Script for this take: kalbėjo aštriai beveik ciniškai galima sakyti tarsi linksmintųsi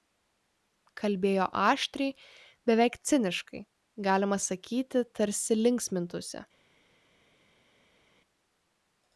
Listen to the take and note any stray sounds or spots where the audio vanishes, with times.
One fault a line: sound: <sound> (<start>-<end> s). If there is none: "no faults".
no faults